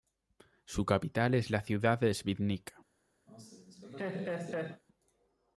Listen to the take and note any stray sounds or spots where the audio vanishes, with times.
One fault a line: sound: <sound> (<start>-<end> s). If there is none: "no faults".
sound: laugh (3.3-4.8 s)